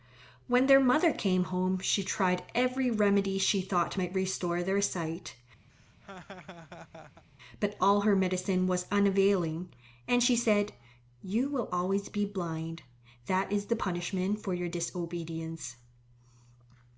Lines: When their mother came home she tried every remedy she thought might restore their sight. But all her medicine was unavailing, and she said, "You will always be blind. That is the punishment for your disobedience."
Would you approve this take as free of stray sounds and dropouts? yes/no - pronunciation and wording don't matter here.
no